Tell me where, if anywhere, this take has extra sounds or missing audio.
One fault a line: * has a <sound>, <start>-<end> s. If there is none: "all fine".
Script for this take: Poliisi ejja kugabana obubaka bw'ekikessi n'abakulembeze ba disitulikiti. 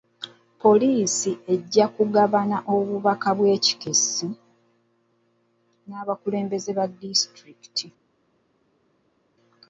all fine